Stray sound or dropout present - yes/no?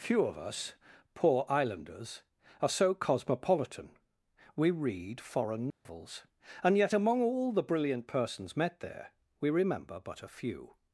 yes